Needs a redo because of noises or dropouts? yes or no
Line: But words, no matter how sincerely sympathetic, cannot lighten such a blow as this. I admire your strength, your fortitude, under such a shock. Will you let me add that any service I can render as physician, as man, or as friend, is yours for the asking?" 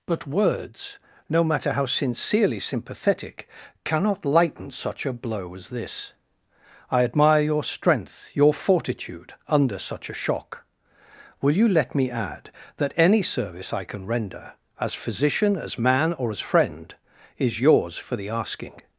no